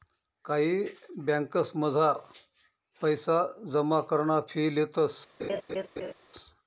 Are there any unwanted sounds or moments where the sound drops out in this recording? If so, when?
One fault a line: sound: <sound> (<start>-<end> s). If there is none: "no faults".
sound: laugh (5.4-6.1 s)